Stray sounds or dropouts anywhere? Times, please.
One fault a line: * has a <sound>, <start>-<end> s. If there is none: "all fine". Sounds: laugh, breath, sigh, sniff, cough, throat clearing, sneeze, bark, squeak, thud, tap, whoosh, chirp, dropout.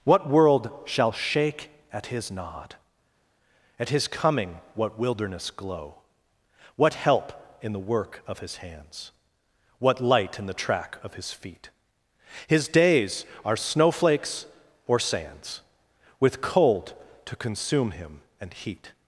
all fine